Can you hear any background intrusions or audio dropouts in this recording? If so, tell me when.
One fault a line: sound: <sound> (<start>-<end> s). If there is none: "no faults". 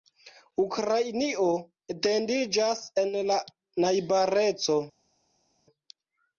no faults